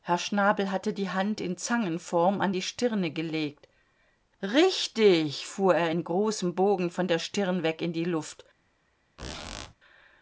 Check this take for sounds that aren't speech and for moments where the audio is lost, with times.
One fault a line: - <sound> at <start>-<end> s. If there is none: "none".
- squeak at 9.2-9.7 s